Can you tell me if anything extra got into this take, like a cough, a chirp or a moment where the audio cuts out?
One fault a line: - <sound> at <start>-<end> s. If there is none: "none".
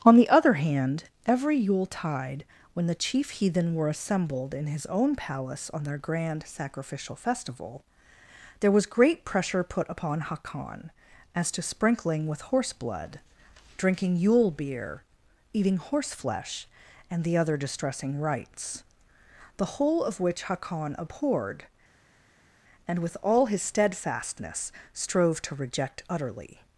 none